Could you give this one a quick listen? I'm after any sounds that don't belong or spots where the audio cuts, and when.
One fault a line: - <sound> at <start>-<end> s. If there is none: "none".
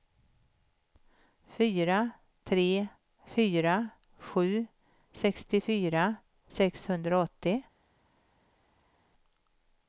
none